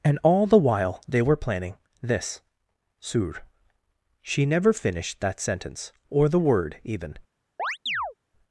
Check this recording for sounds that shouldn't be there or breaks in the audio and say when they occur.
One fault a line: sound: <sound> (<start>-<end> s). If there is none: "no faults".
sound: chirp (7.6-8.1 s)